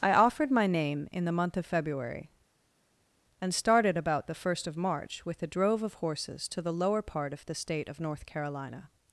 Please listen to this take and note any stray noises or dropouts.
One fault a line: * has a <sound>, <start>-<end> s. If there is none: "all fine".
all fine